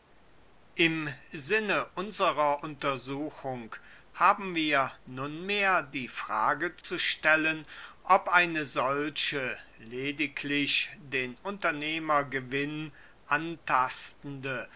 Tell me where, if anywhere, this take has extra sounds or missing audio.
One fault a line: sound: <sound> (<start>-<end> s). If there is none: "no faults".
sound: dropout (6.8-6.8 s)